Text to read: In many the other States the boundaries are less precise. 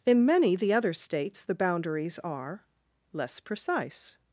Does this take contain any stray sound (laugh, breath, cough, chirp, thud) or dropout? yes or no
no